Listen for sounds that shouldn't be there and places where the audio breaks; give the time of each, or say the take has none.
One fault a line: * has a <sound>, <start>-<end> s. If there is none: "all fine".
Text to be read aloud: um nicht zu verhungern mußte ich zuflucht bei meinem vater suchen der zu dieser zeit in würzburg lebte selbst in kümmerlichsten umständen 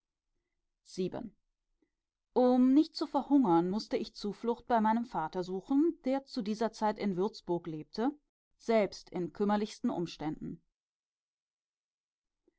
all fine